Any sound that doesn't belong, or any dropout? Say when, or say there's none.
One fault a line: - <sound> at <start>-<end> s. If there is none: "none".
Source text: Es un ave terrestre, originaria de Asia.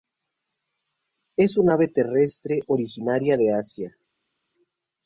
none